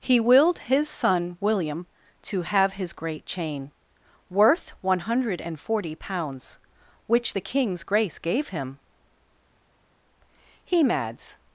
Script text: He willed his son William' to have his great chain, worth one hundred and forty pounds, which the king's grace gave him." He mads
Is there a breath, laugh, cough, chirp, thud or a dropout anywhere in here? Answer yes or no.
no